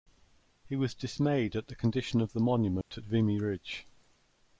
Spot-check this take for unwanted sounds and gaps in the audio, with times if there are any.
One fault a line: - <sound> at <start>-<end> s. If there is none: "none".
- dropout at 2.8-2.9 s